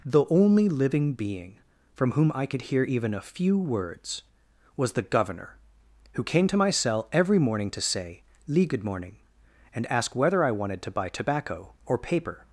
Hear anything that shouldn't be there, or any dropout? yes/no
no